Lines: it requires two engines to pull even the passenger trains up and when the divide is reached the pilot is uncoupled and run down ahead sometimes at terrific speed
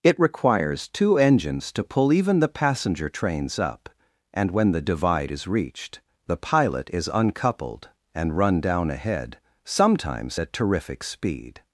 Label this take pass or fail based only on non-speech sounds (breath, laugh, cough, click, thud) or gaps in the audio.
pass